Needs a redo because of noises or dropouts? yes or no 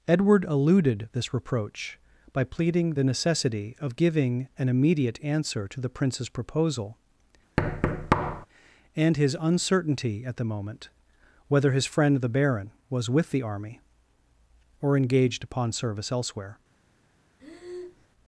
yes